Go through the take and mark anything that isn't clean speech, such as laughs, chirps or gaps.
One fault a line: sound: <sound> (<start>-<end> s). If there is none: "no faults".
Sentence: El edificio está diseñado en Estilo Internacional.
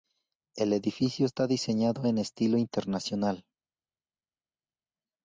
no faults